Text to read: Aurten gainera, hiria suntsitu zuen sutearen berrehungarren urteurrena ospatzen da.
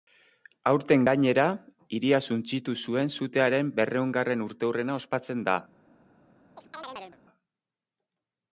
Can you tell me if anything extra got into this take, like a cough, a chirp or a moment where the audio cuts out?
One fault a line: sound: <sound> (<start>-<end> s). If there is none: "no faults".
sound: chirp (6.6-7.2 s)